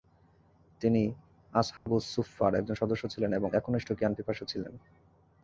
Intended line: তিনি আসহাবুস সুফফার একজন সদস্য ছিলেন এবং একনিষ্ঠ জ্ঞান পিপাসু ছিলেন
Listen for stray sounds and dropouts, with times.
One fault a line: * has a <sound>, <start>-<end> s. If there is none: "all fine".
* has a dropout, 1.8-1.9 s